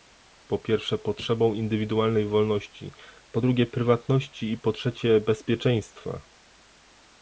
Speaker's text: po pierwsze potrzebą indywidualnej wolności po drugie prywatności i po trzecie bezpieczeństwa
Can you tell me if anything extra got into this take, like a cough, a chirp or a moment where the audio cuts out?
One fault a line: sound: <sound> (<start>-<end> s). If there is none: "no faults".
no faults